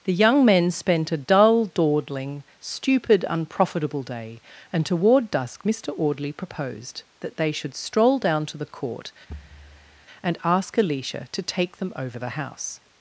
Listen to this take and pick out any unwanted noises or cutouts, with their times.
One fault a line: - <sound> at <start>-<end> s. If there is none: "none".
- thud at 9.3-10.1 s